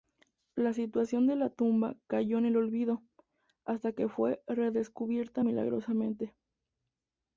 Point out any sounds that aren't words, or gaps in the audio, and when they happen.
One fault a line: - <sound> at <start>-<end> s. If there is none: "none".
none